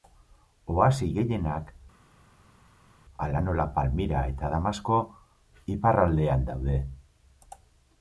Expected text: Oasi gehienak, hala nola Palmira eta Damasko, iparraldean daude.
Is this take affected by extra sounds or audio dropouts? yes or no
no